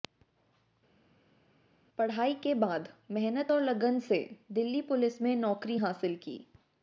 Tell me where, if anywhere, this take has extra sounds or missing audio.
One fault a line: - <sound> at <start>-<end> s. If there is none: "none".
none